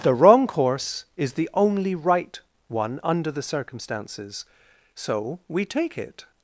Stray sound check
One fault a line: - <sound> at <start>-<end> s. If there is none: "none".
none